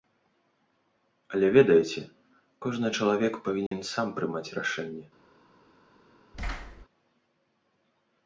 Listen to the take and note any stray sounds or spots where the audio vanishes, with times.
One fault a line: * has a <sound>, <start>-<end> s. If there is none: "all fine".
* has a dropout, 3.7-3.7 s
* has a thud, 6.3-6.9 s